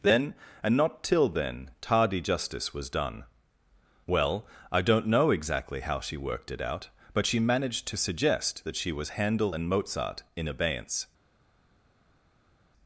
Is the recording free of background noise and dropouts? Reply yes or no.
yes